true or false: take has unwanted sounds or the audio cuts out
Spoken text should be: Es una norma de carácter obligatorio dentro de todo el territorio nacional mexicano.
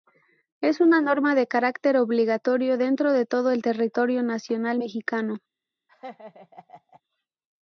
true